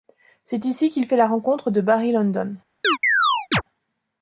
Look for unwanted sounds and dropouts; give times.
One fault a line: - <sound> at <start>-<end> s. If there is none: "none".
- chirp at 2.8-3.6 s